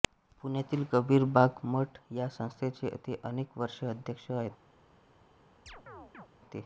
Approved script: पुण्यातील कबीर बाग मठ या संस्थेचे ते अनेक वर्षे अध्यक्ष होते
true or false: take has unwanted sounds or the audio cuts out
true